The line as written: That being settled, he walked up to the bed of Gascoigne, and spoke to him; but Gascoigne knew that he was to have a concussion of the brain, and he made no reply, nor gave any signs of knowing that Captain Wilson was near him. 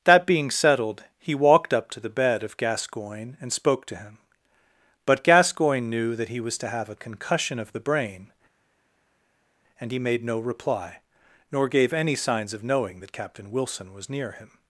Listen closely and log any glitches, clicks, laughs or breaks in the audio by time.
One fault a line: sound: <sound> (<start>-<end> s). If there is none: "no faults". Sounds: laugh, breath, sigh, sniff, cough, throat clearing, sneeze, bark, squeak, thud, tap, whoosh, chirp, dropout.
no faults